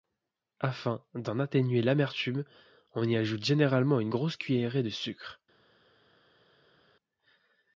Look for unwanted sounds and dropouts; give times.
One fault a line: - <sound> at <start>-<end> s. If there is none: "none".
none